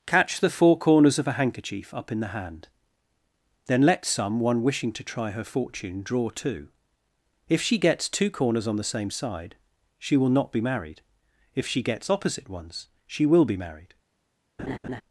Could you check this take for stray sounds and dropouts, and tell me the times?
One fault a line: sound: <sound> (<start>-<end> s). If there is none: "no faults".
sound: laugh (14.6-15.0 s)